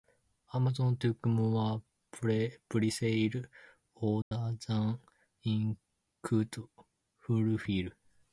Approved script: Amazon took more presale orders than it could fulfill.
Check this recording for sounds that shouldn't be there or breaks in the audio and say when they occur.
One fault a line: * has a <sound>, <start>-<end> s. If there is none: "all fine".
* has a dropout, 4.2-4.3 s